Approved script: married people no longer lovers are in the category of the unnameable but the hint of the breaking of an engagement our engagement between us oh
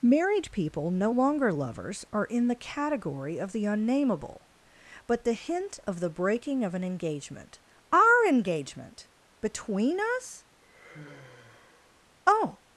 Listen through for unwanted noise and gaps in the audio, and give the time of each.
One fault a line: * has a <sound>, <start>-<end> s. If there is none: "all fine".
* has a sigh, 10.6-12.1 s